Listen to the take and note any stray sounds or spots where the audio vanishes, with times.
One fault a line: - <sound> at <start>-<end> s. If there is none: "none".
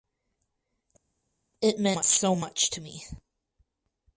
none